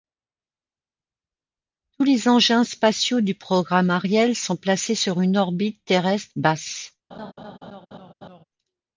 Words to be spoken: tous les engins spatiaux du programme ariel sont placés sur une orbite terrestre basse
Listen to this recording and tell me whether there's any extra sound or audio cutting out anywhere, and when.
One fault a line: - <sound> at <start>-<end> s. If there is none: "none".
- laugh at 7.1-8.4 s